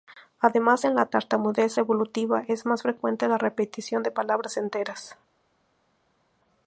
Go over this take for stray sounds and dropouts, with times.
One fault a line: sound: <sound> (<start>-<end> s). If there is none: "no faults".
no faults